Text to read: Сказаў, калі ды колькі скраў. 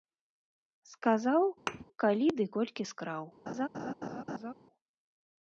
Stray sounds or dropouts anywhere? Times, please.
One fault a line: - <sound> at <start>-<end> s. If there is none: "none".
- thud at 1.7-1.8 s
- laugh at 3.5-4.5 s